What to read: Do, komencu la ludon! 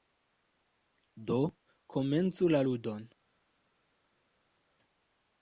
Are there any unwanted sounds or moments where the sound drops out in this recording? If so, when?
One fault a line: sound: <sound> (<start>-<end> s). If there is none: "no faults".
no faults